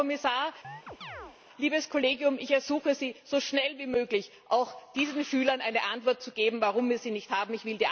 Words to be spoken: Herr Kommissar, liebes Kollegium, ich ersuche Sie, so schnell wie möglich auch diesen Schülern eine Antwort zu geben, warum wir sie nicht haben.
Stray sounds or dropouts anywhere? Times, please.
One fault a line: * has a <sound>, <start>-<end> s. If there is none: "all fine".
* has a chirp, 0.6-1.4 s